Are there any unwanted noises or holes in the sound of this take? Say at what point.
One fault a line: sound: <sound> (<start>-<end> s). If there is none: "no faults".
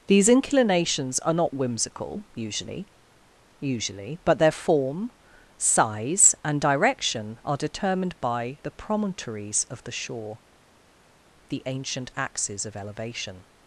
no faults